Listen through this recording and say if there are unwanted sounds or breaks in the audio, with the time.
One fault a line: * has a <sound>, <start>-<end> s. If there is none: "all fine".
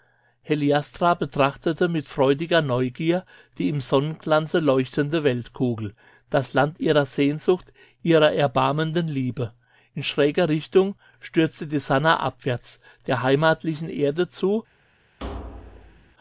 * has a thud, 15.2-16.1 s